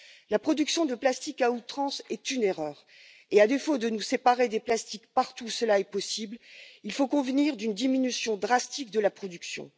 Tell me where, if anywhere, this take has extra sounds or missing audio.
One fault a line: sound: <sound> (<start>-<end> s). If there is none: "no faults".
no faults